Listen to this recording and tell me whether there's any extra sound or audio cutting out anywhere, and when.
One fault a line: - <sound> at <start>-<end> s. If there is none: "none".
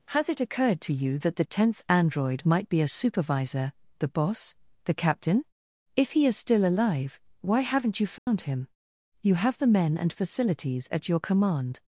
- dropout at 8.2-8.3 s